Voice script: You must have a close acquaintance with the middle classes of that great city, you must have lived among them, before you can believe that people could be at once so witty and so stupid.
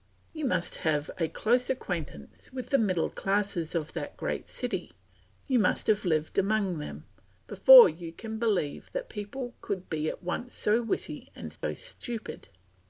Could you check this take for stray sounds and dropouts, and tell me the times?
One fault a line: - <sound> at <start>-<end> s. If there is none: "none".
- dropout at 11.6-11.6 s